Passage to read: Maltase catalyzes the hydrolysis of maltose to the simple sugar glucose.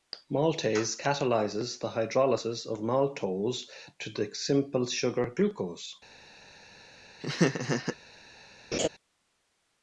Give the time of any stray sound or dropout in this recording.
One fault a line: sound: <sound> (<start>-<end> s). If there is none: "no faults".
sound: laugh (7.2-8.0 s)
sound: laugh (8.7-8.9 s)